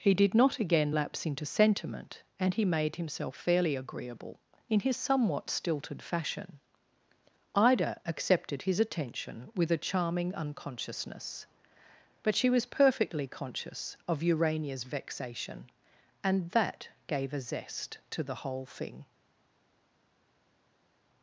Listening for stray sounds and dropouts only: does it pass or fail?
pass